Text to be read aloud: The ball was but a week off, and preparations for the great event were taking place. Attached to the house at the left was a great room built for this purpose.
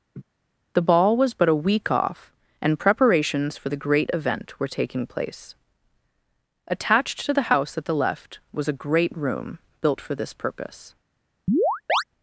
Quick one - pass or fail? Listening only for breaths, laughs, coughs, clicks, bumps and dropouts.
fail